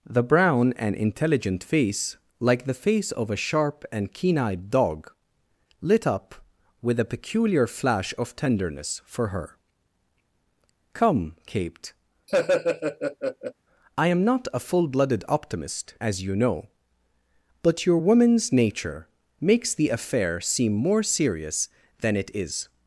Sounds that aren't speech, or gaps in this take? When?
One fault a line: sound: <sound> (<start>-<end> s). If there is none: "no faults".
sound: laugh (12.3-13.5 s)